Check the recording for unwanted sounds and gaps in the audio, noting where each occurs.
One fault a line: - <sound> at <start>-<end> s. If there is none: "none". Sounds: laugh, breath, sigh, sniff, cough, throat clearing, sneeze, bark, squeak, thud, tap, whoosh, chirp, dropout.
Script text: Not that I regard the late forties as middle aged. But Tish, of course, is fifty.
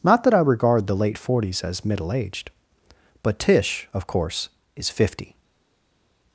none